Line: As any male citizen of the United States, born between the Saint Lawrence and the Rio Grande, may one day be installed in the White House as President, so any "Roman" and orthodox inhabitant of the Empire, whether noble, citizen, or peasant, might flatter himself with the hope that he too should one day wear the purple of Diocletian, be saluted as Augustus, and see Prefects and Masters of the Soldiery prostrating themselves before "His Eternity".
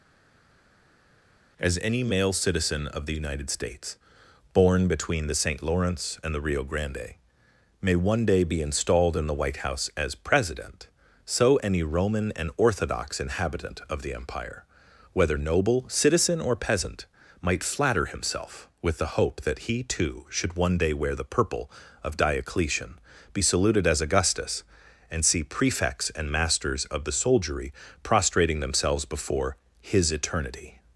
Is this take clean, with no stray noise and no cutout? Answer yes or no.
yes